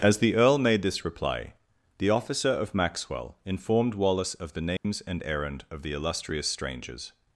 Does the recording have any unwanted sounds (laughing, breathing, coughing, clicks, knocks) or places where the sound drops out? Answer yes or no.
yes